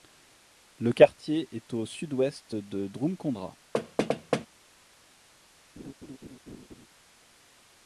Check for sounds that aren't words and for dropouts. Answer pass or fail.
fail